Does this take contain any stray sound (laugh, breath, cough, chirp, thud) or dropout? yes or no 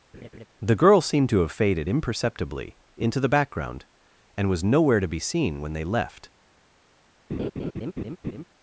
yes